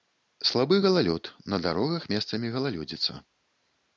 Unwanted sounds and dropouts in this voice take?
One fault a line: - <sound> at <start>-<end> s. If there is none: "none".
none